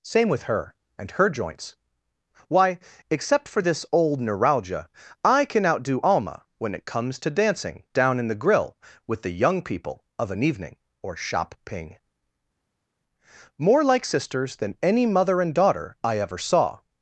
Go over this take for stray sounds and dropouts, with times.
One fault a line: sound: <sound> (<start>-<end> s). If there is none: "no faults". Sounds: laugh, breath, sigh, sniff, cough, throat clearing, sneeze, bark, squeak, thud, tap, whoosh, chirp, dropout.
no faults